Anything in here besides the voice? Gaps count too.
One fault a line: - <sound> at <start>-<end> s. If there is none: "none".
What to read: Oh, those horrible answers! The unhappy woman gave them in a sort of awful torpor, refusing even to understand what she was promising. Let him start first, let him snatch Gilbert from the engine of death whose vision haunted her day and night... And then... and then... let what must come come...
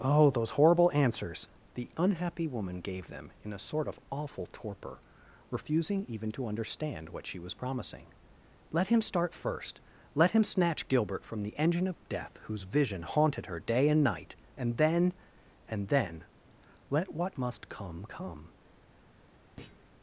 - thud at 19.6-19.9 s